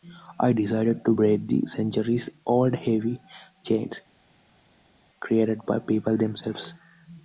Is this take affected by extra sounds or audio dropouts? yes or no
no